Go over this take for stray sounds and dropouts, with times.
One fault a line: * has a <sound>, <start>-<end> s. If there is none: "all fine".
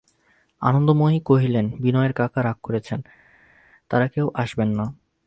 all fine